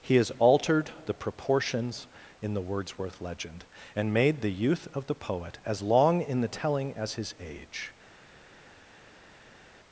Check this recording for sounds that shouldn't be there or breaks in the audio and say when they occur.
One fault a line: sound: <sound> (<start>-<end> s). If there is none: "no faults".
no faults